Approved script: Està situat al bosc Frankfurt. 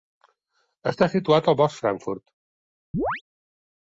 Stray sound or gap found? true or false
true